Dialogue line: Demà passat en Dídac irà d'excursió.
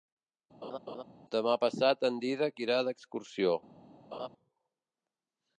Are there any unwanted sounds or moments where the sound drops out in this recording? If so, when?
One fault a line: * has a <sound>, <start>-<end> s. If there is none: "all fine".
* has a laugh, 0.6-1.0 s
* has a laugh, 4.1-4.3 s